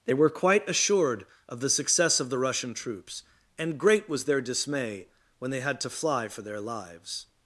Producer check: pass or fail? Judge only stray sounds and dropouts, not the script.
pass